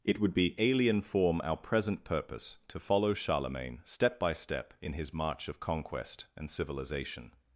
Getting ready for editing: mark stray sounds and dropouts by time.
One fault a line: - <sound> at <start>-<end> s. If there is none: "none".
none